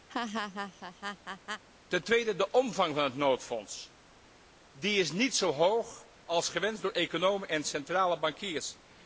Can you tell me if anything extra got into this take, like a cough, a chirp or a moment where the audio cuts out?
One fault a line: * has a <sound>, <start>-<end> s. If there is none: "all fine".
* has a laugh, 0.1-1.6 s